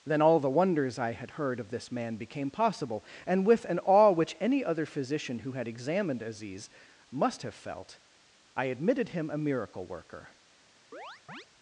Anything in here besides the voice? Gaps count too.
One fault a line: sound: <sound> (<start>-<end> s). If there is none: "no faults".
sound: chirp (10.9-11.5 s)